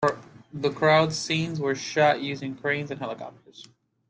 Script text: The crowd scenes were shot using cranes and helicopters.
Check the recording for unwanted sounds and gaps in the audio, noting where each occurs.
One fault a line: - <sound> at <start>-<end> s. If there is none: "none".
none